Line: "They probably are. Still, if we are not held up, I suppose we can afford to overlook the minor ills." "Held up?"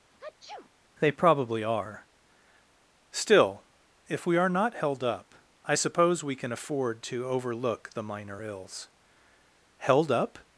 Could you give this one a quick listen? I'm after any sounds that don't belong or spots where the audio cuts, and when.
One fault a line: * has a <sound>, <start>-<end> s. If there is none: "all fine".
* has a sneeze, 0.1-0.7 s